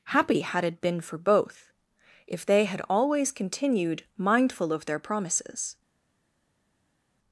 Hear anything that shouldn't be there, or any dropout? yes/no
no